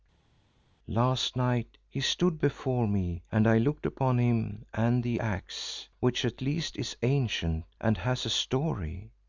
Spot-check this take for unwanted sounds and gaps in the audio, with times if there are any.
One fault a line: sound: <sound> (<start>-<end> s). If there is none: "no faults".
no faults